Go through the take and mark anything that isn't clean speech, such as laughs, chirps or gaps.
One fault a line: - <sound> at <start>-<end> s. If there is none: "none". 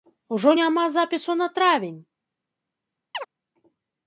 - chirp at 3.1-3.3 s